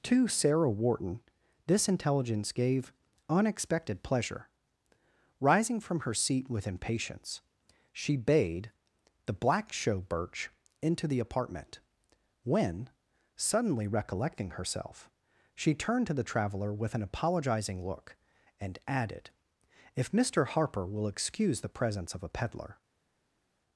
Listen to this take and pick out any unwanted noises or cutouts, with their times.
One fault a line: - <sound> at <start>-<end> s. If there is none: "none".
none